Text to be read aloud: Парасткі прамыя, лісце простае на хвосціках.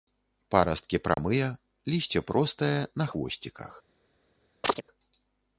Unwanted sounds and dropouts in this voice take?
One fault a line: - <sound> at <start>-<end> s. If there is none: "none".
- dropout at 1.1-1.2 s
- chirp at 4.6-4.8 s